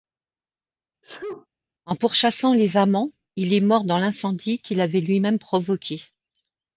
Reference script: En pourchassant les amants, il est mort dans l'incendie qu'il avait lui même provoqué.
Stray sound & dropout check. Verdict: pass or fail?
fail